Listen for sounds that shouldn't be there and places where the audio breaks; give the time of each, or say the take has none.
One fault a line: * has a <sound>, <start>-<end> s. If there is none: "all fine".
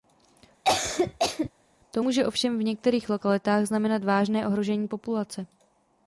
* has a cough, 0.6-1.5 s